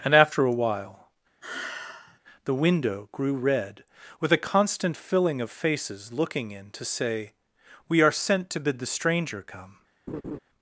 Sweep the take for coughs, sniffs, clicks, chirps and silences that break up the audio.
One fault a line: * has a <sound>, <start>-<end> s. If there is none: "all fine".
* has a sigh, 1.4-2.2 s
* has a laugh, 10.1-10.4 s